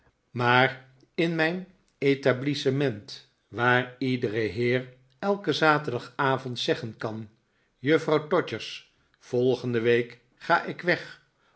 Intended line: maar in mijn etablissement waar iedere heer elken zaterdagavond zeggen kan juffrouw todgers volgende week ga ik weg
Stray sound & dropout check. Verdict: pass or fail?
pass